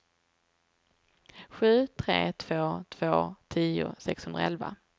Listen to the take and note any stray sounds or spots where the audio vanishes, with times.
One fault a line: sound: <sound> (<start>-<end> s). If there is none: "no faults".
no faults